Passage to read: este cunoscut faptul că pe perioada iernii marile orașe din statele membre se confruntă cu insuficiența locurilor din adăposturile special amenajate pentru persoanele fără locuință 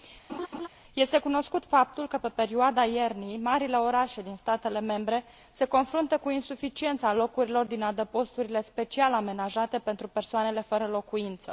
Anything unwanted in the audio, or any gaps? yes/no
yes